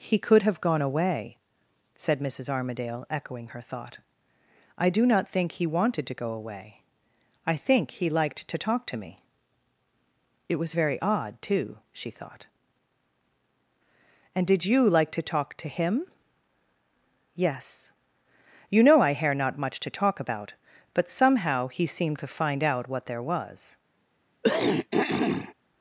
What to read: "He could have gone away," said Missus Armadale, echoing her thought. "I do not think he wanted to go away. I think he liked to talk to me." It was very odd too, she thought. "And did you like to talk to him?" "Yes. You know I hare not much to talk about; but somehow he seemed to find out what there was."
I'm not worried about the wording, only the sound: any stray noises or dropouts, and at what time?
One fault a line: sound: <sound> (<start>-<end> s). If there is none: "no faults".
sound: throat clearing (24.4-25.5 s)